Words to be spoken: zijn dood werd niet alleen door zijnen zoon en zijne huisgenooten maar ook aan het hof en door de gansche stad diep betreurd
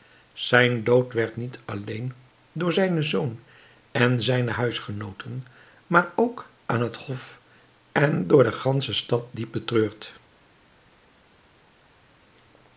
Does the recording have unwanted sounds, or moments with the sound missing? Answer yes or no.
no